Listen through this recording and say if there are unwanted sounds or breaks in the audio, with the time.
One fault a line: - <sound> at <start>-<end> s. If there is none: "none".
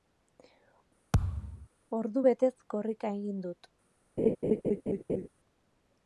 - thud at 1.1-1.7 s
- laugh at 4.2-5.3 s